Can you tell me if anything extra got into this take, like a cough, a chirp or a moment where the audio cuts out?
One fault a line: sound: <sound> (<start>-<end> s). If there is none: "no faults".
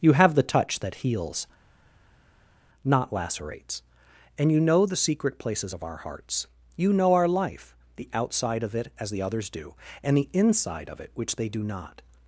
no faults